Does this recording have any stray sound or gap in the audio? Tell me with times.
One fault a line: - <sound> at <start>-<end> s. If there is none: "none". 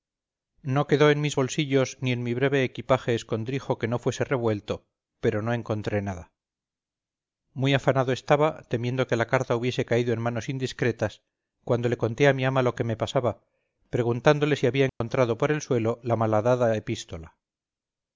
- dropout at 14.9-15.0 s